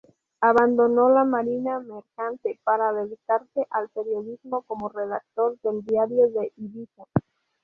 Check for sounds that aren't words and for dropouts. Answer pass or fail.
pass